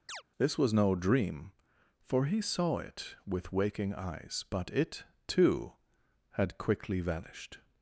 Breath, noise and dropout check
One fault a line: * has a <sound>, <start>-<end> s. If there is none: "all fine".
* has a chirp, 0.1-0.2 s